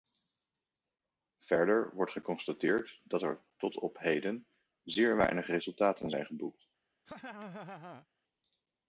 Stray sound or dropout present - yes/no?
yes